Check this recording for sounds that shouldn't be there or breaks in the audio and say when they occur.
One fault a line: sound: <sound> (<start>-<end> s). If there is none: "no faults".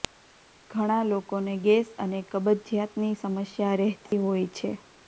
sound: dropout (4.1-4.1 s)